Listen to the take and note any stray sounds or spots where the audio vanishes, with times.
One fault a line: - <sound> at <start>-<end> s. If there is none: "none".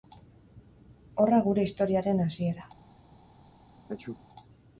- sneeze at 3.7-4.2 s